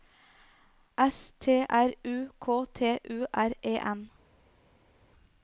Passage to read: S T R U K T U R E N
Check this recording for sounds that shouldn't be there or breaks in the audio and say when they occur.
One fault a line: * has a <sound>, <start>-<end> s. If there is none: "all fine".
all fine